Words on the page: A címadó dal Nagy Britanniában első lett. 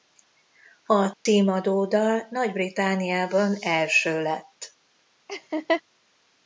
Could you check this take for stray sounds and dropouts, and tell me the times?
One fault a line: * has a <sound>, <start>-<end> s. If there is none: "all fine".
* has a dropout, 1.1-1.3 s
* has a laugh, 5.3-5.8 s